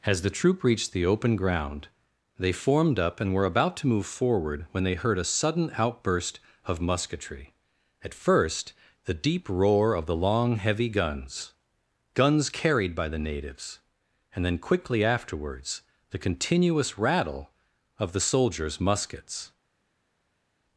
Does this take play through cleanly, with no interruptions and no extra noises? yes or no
yes